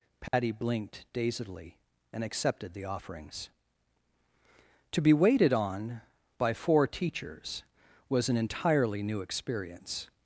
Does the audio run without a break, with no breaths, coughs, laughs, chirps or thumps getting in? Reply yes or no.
no